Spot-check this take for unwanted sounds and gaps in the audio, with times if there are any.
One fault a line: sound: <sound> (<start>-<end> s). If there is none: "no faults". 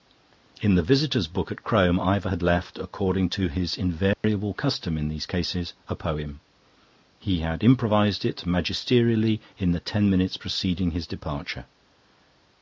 sound: dropout (4.1-4.2 s)